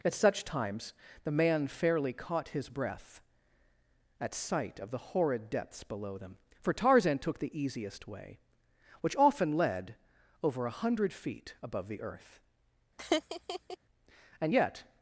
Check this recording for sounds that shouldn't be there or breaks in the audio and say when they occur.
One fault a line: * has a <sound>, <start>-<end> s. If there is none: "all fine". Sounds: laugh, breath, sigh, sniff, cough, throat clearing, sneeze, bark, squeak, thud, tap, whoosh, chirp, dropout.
* has a laugh, 13.0-13.8 s